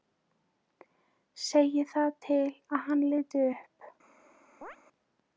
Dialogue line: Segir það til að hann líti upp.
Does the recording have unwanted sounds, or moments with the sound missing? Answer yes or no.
yes